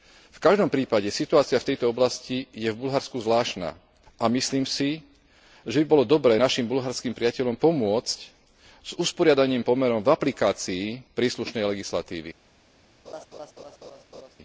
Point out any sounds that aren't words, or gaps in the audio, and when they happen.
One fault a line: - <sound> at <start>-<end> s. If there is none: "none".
- laugh at 13.1-14.4 s